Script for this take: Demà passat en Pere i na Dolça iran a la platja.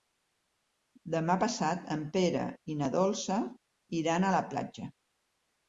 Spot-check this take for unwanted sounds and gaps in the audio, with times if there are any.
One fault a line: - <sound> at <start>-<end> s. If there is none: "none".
none